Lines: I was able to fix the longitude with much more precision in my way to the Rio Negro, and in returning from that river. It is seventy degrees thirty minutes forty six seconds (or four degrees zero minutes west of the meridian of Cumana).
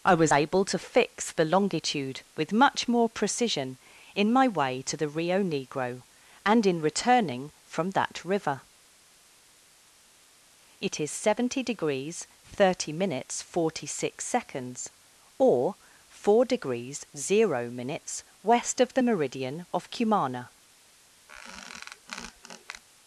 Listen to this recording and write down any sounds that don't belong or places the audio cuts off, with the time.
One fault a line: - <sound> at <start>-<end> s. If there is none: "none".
- squeak at 21.3-22.8 s